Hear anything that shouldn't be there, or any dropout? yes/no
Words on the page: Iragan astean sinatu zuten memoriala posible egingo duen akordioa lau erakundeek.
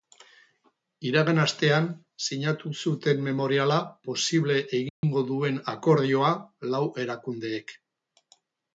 yes